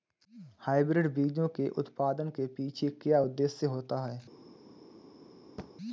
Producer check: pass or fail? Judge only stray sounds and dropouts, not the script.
fail